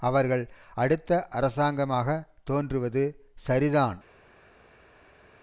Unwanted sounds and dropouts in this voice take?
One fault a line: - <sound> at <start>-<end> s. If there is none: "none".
none